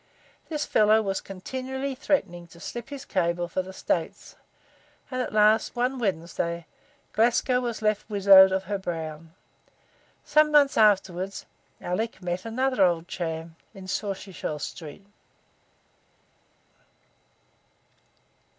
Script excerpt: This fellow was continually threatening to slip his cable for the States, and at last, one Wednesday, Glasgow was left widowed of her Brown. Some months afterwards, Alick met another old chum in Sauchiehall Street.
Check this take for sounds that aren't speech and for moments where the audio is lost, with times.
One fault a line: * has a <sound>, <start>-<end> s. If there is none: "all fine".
all fine